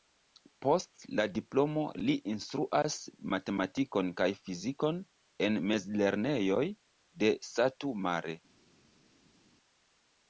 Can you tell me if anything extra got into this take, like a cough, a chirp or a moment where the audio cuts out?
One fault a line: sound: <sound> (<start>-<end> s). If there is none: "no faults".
no faults